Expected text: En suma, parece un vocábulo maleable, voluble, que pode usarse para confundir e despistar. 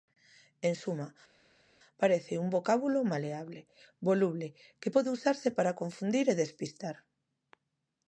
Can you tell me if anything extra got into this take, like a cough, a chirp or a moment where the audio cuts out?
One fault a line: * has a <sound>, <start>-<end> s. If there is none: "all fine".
all fine